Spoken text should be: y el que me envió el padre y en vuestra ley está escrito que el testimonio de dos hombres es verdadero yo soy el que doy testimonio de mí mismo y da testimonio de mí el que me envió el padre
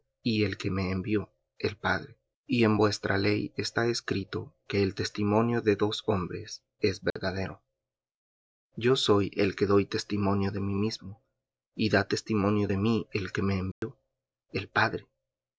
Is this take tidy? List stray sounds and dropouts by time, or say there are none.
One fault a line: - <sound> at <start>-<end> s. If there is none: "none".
- dropout at 7.1-7.2 s
- dropout at 13.7-13.8 s